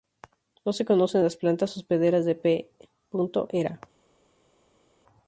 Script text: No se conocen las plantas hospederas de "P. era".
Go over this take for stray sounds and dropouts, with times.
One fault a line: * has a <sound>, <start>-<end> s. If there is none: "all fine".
all fine